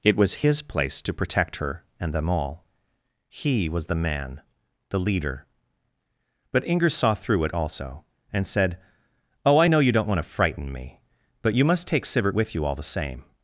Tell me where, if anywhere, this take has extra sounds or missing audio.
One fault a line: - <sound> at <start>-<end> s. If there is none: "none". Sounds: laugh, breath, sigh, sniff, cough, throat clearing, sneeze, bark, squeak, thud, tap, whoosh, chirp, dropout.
none